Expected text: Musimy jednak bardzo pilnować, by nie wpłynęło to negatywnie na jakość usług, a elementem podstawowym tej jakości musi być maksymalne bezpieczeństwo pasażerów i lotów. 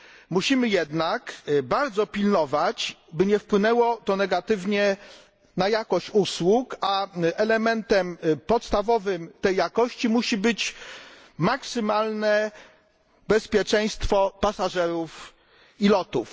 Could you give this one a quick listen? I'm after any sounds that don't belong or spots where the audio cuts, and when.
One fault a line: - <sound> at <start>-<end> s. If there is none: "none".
none